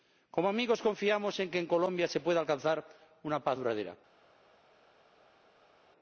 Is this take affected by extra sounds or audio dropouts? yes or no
no